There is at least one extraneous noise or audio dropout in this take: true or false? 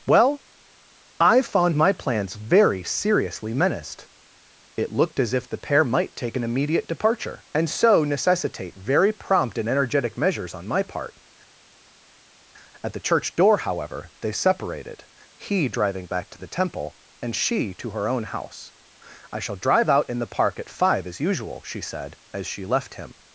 false